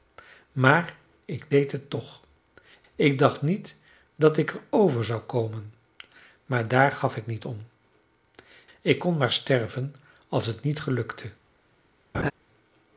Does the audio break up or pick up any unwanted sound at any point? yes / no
yes